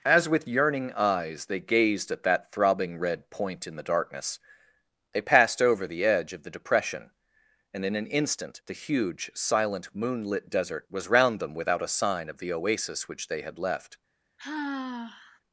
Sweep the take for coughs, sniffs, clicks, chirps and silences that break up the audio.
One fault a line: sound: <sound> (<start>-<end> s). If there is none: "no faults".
sound: sigh (14.4-15.4 s)